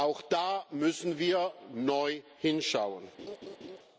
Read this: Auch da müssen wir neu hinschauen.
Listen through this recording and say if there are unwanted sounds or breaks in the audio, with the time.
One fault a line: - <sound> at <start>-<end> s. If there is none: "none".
- laugh at 3.2-3.8 s